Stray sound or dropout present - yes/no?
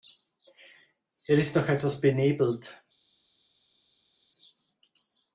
no